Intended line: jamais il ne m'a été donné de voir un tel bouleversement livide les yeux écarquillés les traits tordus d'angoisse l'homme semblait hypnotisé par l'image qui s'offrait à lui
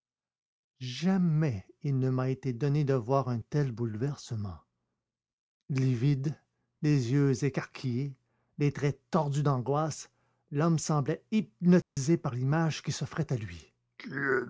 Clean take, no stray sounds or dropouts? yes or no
no